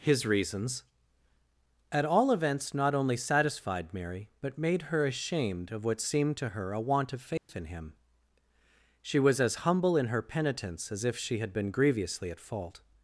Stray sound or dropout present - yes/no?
yes